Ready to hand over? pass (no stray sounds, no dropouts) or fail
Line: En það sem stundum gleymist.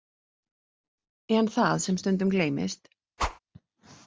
fail